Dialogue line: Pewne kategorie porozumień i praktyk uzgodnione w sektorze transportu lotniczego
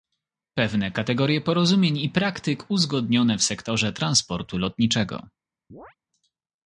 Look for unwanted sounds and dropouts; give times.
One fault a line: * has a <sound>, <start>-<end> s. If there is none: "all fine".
* has a chirp, 5.7-6.0 s